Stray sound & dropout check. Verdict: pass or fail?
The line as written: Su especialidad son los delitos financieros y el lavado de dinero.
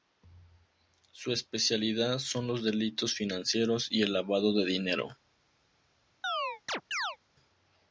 fail